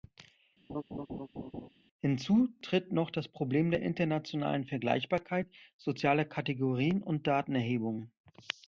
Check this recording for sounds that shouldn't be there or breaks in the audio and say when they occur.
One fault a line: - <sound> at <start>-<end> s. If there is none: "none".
- laugh at 0.7-1.7 s